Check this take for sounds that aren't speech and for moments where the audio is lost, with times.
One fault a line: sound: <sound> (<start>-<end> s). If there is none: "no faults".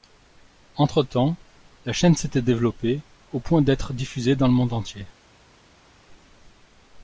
no faults